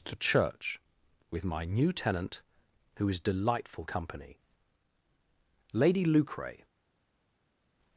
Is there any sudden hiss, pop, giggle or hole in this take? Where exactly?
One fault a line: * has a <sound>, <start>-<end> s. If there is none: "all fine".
all fine